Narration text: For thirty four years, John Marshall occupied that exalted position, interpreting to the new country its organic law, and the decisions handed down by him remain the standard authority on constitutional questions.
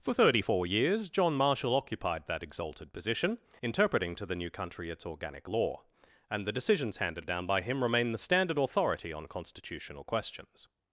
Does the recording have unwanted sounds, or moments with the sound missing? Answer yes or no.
no